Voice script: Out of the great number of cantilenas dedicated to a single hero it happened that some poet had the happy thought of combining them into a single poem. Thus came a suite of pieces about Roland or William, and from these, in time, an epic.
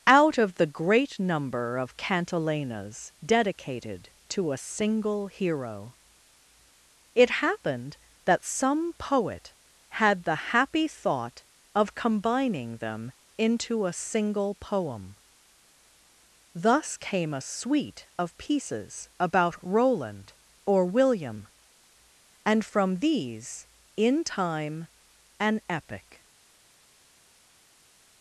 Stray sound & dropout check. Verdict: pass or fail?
pass